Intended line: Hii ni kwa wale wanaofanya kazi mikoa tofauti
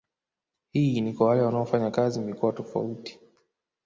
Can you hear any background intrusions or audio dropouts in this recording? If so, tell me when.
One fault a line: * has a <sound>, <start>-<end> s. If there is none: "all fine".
all fine